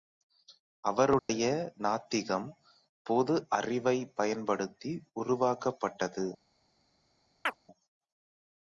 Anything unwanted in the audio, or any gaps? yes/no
yes